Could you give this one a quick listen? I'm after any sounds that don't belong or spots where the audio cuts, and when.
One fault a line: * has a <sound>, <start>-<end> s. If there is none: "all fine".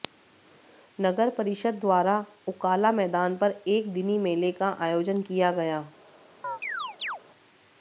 * has a chirp, 6.4-7.2 s